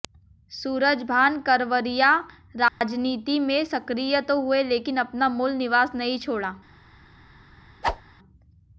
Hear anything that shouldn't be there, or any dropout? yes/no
yes